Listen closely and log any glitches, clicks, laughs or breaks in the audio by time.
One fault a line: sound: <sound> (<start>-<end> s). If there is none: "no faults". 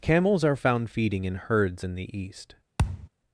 sound: thud (2.8-3.1 s)